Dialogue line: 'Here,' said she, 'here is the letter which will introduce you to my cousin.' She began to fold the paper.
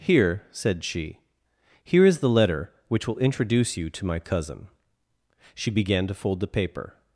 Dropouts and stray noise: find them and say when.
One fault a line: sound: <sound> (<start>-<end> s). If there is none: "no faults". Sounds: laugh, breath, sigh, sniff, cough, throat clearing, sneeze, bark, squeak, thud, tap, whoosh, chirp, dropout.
no faults